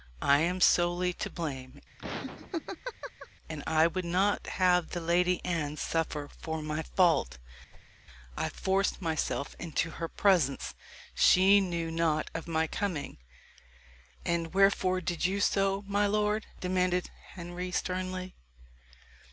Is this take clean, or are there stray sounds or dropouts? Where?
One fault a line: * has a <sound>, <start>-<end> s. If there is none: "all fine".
* has a laugh, 2.0-3.3 s
* has a whoosh, 7.7-7.9 s